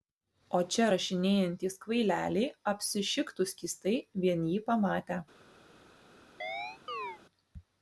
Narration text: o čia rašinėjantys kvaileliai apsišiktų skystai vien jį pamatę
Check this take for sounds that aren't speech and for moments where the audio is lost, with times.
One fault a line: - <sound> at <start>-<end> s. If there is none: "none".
- chirp at 6.4-7.2 s